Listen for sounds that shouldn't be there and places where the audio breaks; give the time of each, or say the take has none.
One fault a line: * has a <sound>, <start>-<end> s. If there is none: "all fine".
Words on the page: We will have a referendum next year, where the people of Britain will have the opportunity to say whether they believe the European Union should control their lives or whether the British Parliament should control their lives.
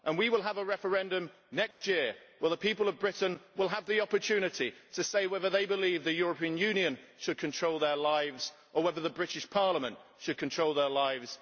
* has a dropout, 1.7-1.8 s